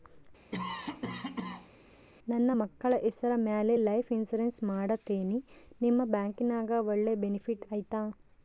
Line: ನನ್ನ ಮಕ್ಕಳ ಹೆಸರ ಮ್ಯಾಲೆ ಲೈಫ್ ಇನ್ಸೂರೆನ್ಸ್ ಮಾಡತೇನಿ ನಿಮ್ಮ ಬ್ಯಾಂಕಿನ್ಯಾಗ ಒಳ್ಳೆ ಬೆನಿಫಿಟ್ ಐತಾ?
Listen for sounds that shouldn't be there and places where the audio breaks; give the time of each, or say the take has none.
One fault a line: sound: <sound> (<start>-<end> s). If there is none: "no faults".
sound: cough (0.5-1.7 s)